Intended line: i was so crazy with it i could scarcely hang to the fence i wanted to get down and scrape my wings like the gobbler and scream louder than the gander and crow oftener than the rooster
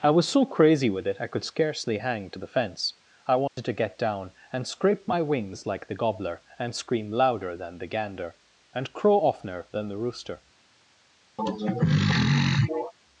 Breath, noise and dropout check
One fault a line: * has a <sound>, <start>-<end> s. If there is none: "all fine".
* has a dropout, 3.5-3.6 s
* has a throat clearing, 11.4-12.9 s